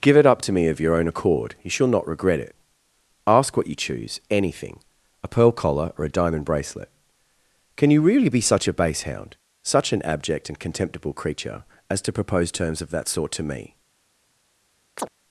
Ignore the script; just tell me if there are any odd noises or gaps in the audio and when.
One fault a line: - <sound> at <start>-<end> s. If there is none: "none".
- chirp at 15.0-15.1 s